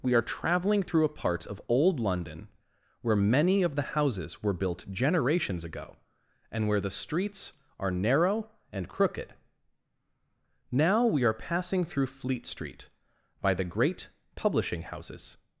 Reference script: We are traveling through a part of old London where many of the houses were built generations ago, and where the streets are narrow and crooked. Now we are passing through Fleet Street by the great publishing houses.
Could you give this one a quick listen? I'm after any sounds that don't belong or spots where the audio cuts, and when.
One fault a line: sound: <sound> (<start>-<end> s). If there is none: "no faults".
no faults